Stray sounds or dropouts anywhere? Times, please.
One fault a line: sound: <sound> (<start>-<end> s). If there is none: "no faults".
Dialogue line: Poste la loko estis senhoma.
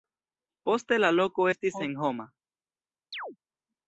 sound: chirp (3.1-3.4 s)